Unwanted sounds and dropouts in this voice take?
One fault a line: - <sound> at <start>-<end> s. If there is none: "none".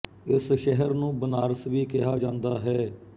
none